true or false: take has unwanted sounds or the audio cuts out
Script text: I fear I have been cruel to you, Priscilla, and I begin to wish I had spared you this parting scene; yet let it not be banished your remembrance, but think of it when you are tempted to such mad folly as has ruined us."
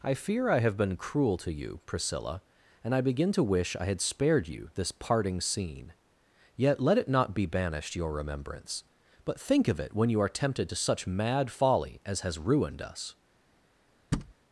true